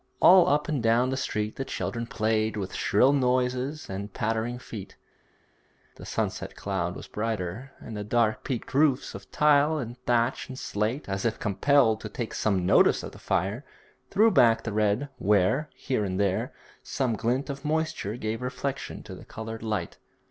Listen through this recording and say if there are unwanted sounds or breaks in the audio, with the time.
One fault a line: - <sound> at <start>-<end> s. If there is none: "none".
none